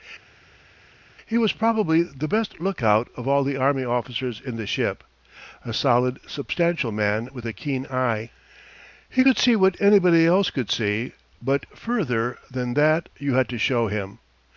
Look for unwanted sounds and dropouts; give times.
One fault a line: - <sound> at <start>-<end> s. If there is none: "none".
none